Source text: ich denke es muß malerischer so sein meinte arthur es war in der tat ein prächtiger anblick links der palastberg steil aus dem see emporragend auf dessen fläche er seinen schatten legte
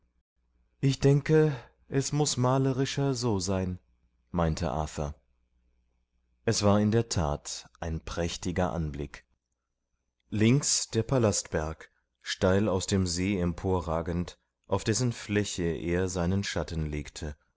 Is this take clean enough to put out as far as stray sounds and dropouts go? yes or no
yes